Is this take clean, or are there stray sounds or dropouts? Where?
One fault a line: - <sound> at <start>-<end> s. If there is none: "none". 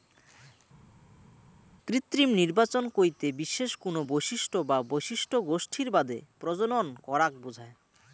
none